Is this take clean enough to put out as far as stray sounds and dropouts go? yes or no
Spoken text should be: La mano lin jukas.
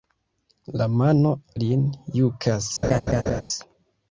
no